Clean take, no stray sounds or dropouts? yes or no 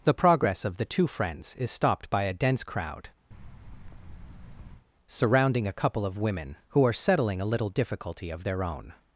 no